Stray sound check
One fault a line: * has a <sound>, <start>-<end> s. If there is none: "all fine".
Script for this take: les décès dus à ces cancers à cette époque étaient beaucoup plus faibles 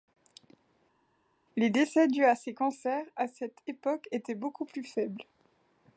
all fine